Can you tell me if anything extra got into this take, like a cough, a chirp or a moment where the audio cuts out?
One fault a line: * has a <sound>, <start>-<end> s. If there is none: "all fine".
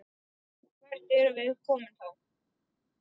all fine